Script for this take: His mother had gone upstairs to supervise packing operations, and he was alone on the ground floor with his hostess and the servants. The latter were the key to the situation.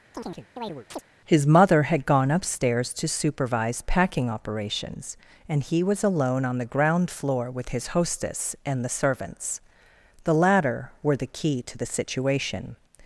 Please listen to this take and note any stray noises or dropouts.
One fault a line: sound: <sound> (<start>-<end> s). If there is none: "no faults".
sound: chirp (0.1-1.0 s)